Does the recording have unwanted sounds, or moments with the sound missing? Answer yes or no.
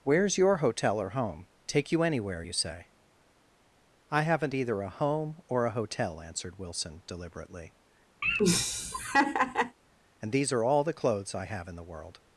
yes